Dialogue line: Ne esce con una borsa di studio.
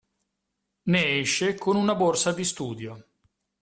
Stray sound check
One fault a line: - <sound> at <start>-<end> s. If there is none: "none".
none